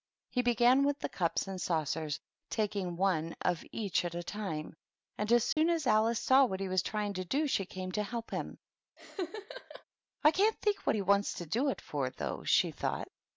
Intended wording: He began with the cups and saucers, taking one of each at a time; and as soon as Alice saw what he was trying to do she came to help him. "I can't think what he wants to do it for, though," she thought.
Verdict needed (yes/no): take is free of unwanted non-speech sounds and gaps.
no